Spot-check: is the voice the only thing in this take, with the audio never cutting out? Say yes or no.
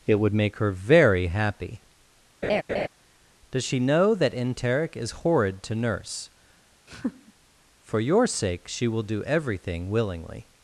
no